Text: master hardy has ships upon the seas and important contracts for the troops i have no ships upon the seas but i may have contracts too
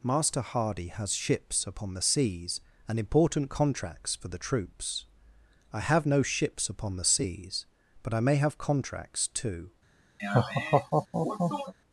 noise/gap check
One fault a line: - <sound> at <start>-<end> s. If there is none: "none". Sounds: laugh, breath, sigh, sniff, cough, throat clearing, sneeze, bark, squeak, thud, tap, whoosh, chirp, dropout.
- laugh at 10.2-11.7 s